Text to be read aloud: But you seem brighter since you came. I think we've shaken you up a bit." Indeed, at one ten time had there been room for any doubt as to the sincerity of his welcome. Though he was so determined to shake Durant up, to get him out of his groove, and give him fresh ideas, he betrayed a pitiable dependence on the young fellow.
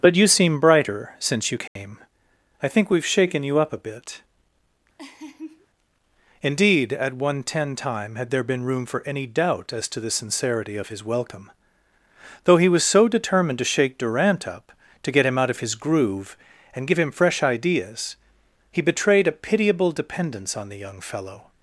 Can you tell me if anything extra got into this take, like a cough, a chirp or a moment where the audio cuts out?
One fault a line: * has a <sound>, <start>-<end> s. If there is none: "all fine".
* has a dropout, 1.7-1.8 s
* has a laugh, 5.0-5.7 s